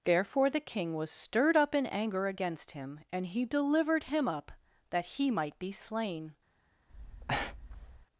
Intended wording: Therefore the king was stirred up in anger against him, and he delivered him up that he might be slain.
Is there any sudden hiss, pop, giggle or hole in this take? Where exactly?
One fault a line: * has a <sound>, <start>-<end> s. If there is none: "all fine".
* has a breath, 6.9-8.1 s